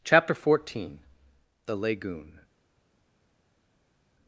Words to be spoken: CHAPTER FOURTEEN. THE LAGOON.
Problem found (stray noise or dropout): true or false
false